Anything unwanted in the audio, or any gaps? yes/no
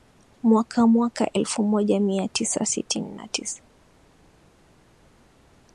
no